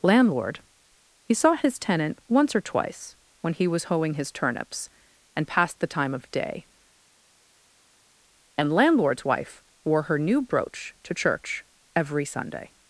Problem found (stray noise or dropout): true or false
false